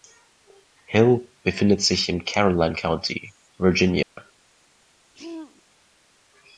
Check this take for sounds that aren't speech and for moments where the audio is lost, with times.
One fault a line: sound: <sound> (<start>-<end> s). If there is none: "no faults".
sound: dropout (4.0-4.2 s)
sound: throat clearing (5.1-5.6 s)